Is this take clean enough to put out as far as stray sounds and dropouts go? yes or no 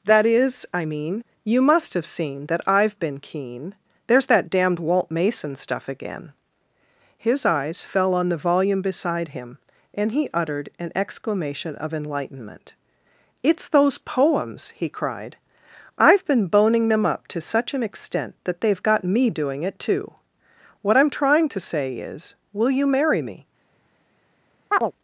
no